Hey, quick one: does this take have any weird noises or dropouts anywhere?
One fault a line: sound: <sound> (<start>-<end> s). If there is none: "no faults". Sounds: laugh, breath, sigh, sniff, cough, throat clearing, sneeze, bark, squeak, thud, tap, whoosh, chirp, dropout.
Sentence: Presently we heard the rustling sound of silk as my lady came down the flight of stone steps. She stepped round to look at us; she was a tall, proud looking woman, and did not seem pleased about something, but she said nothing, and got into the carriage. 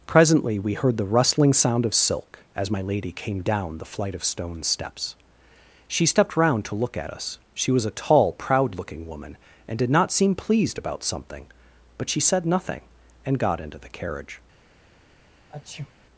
sound: sneeze (15.5-15.9 s)